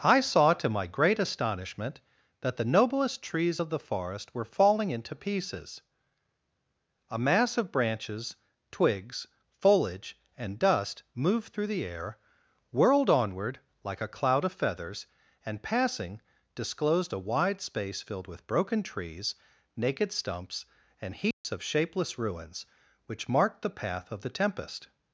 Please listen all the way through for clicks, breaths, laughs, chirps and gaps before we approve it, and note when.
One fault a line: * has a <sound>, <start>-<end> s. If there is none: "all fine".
* has a dropout, 21.3-21.4 s